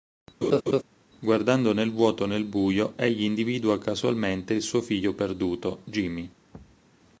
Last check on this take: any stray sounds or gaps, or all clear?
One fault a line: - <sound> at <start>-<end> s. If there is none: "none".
- laugh at 0.4-0.8 s
- thud at 6.5-6.9 s